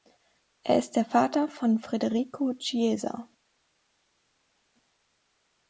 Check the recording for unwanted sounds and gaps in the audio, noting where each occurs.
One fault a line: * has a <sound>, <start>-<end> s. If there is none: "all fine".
all fine